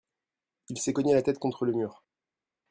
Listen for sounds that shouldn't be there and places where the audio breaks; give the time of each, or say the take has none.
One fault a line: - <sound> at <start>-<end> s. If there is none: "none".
none